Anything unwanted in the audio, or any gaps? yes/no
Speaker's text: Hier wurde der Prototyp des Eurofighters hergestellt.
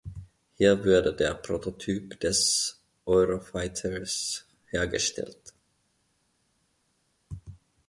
no